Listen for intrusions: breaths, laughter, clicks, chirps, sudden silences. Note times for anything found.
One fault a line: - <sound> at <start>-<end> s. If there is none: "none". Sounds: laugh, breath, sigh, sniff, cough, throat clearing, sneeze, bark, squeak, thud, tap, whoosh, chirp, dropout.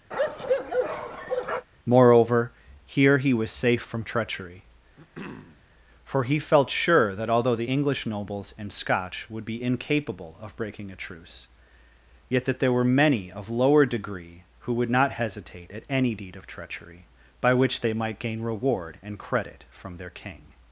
- bark at 0.1-1.7 s
- throat clearing at 5.0-5.6 s